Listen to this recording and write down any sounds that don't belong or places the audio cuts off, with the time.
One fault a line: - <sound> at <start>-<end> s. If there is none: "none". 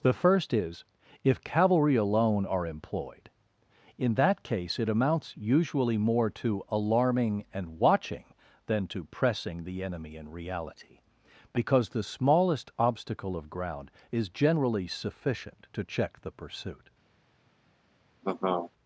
- laugh at 18.2-18.7 s